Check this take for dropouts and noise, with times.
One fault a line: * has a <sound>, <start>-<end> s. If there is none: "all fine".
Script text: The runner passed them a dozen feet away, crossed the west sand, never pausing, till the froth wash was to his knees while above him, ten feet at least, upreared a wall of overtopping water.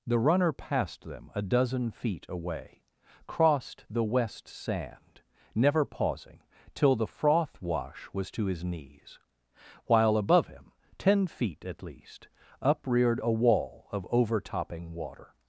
all fine